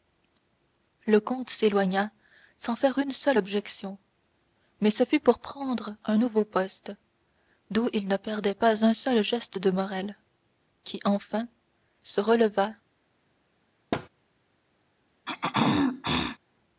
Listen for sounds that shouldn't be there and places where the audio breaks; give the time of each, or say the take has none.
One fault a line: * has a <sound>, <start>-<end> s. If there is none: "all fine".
* has a thud, 13.9-14.1 s
* has a throat clearing, 15.3-16.4 s